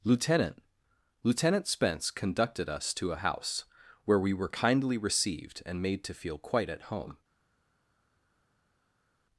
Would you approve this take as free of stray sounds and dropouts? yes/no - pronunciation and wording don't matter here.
yes